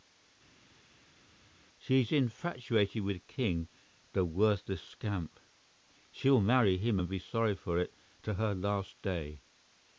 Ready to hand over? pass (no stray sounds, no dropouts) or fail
pass